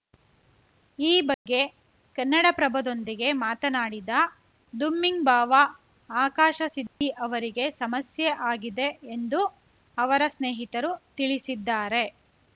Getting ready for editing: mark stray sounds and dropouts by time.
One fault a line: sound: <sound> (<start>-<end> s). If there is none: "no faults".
sound: dropout (1.3-1.5 s)
sound: dropout (6.9-7.0 s)